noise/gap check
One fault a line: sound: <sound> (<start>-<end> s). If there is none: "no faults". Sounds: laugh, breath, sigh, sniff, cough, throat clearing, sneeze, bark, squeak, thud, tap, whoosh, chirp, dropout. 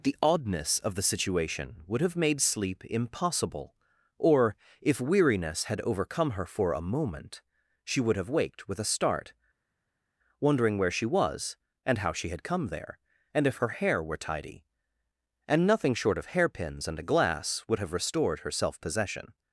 no faults